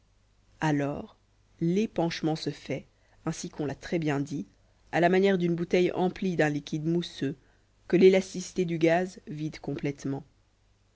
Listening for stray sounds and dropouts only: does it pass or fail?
pass